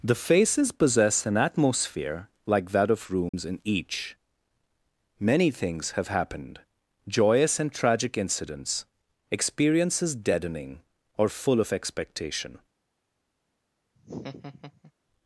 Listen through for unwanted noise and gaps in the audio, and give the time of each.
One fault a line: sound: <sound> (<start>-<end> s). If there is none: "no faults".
sound: dropout (3.3-3.3 s)
sound: laugh (14.0-14.9 s)